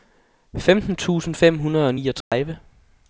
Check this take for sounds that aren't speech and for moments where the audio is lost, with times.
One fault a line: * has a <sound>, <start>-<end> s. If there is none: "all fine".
* has a dropout, 2.2-2.3 s